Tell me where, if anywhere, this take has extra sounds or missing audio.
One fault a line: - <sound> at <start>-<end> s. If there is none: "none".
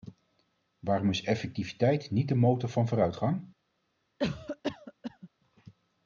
- cough at 4.2-5.3 s